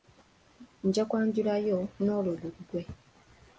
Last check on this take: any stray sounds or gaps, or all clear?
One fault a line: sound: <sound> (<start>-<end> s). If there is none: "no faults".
no faults